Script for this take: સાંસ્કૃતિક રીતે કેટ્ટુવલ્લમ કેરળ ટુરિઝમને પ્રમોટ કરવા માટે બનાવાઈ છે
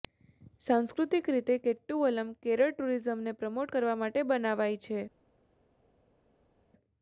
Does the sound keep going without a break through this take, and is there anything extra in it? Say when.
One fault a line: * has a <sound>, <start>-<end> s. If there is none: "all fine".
all fine